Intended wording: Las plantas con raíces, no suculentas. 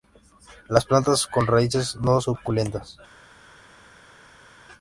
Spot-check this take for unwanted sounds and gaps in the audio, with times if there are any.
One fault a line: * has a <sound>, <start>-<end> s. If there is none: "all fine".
all fine